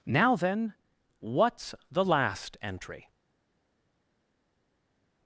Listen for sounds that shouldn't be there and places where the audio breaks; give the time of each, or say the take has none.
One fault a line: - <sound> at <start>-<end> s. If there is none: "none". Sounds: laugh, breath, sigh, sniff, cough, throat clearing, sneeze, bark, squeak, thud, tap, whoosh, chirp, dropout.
none